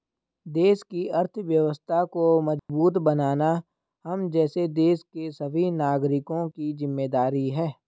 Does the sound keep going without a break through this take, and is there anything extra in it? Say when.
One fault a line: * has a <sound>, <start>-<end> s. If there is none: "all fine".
* has a dropout, 2.6-2.7 s